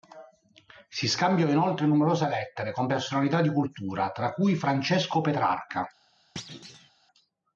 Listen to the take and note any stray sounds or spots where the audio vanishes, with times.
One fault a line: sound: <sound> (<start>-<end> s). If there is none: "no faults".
sound: thud (6.4-6.9 s)